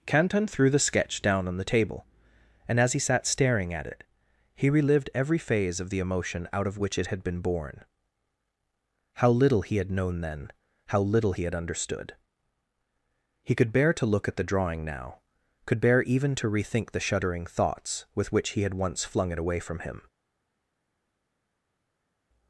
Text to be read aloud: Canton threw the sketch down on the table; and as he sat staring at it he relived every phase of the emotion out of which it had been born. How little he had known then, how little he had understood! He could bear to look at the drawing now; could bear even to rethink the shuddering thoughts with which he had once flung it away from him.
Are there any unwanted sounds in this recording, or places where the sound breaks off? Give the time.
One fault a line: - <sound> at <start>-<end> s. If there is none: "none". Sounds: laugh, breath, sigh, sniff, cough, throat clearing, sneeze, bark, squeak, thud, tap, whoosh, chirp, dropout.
none